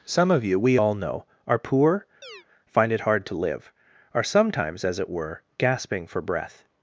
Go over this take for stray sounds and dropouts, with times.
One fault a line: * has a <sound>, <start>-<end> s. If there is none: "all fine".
* has a chirp, 2.2-2.5 s